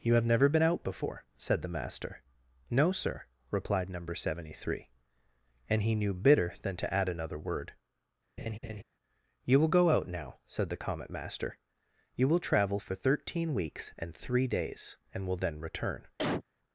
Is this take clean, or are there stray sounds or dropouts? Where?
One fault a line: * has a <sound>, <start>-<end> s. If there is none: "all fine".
* has a laugh, 8.4-8.8 s
* has a cough, 16.2-16.4 s